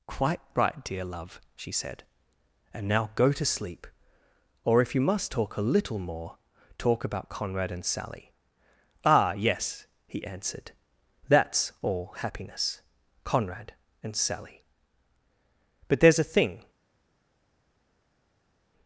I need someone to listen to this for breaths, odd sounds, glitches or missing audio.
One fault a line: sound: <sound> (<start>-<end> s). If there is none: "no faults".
no faults